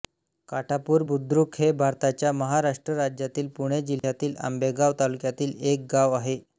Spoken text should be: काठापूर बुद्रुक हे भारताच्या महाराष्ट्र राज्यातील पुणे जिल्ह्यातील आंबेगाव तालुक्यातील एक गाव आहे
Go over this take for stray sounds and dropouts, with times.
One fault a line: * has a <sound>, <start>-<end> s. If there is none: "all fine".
* has a dropout, 4.0-4.0 s